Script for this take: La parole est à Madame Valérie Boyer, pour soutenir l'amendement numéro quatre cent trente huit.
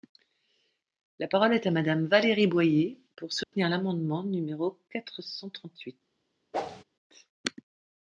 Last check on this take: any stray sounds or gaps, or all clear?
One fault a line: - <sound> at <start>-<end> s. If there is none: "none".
- dropout at 3.4-3.5 s
- whoosh at 6.5-6.8 s